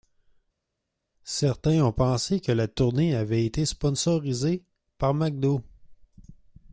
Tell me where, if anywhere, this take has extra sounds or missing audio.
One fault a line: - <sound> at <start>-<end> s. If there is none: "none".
none